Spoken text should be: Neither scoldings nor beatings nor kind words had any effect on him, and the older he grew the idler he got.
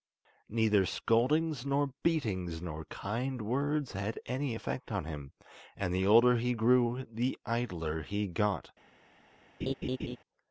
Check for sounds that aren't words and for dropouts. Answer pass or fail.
fail